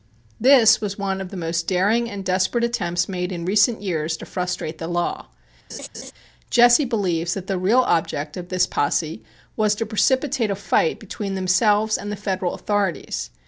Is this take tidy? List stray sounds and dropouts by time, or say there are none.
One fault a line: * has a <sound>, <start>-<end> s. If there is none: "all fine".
* has a laugh, 5.7-6.1 s